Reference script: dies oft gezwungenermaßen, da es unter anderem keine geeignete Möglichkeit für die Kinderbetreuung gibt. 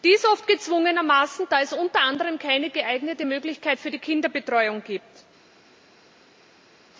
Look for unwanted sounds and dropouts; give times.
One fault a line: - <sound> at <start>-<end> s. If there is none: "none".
none